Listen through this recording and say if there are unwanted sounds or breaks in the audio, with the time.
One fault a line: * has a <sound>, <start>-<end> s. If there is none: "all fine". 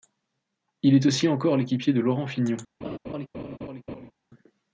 * has a laugh, 2.8-4.1 s